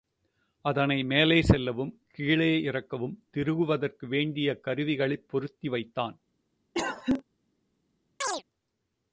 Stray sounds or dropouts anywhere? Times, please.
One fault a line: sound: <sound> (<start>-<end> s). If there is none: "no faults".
sound: cough (6.7-7.2 s)
sound: chirp (8.2-8.4 s)